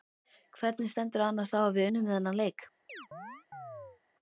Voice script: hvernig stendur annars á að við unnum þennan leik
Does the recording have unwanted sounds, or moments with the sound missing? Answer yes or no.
yes